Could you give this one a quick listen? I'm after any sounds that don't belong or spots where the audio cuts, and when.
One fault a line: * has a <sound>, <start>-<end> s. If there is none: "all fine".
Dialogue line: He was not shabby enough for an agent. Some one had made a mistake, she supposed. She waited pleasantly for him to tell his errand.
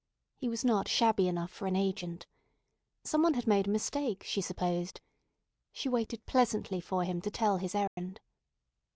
* has a dropout, 7.9-8.0 s